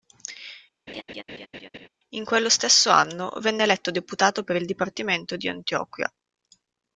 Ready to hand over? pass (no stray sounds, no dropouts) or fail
fail